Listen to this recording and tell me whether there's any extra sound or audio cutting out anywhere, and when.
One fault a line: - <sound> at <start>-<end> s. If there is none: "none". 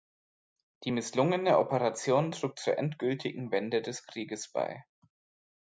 none